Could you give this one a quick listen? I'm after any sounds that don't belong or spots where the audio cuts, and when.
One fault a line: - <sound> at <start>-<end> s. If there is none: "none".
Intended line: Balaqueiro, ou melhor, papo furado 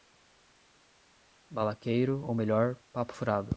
none